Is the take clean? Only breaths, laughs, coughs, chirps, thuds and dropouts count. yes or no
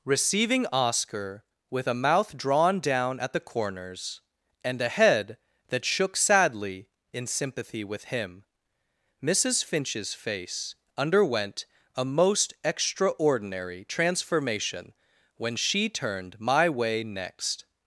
yes